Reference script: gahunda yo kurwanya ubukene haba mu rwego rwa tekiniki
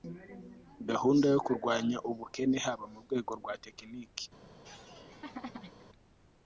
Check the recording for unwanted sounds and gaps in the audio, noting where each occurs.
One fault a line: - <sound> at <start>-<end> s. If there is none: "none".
- laugh at 4.6-5.9 s